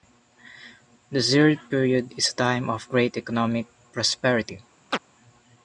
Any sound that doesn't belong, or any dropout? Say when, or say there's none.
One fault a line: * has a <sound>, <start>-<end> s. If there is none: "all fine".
* has a chirp, 4.9-5.0 s